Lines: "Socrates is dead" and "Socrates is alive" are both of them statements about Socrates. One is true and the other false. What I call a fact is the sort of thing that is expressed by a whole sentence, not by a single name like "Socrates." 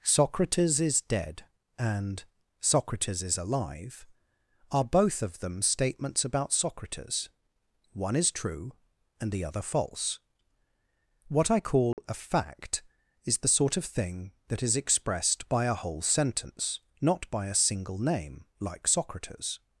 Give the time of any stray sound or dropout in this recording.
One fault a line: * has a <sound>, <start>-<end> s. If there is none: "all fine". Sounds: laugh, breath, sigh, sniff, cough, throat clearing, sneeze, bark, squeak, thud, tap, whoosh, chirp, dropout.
* has a dropout, 11.9-12.0 s